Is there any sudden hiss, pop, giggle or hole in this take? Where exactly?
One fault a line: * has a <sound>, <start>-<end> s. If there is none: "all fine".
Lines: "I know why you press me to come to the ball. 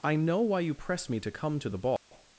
* has a dropout, 2.0-2.1 s